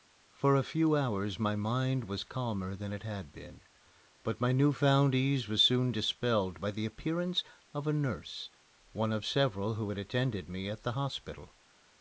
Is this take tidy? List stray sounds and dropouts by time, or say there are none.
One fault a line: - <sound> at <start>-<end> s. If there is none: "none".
none